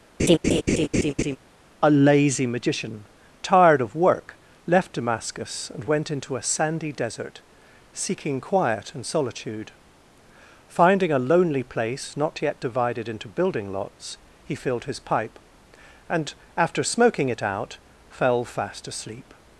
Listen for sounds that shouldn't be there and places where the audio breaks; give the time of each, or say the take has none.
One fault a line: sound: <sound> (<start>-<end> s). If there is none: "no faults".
sound: laugh (0.2-1.4 s)